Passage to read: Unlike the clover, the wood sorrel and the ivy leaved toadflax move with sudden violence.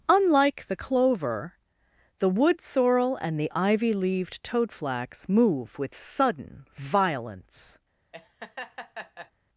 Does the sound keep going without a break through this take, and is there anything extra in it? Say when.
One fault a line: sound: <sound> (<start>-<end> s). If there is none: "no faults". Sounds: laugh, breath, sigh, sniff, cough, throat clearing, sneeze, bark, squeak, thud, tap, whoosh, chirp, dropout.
sound: laugh (8.1-9.3 s)